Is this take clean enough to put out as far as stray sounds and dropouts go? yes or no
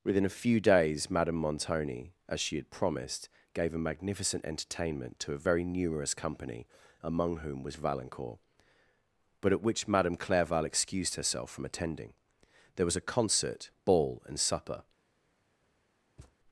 no